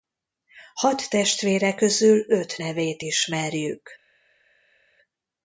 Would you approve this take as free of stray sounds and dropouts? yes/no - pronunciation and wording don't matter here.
yes